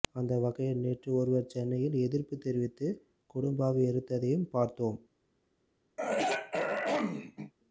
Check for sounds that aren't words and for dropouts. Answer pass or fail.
fail